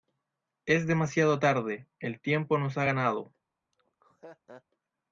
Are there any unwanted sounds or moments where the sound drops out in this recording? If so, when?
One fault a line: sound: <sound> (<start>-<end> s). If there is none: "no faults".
sound: laugh (3.7-4.6 s)